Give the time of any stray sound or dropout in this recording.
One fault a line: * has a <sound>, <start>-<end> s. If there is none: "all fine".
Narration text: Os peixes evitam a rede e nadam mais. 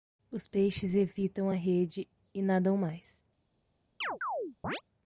* has a chirp, 4.0-4.8 s